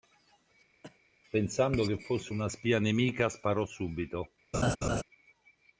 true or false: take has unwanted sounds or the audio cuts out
true